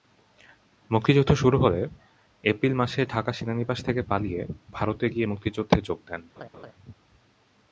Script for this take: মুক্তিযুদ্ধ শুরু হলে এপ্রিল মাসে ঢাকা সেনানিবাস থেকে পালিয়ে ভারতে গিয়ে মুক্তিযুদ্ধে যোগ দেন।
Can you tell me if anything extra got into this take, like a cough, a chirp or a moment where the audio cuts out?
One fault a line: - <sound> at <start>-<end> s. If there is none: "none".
- laugh at 6.4-6.7 s